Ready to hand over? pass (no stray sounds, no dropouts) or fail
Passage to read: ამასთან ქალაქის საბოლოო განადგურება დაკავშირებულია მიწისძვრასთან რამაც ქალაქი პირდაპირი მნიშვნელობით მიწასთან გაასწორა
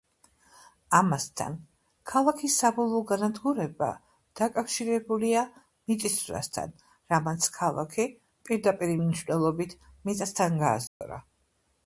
fail